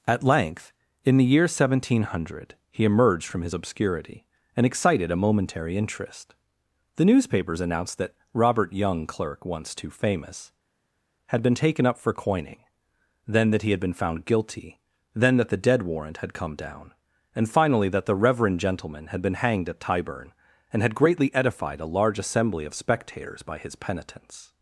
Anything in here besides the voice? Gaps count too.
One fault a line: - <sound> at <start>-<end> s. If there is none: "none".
none